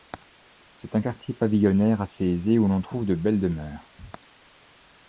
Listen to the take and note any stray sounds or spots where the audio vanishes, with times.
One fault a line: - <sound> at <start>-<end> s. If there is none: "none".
none